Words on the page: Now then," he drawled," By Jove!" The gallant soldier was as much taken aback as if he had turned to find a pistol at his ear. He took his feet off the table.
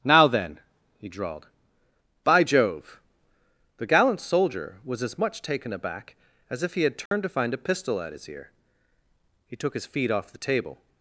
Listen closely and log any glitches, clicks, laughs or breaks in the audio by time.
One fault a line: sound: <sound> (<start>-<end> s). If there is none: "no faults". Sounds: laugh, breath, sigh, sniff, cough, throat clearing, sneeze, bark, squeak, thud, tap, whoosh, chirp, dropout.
sound: dropout (7.1-7.1 s)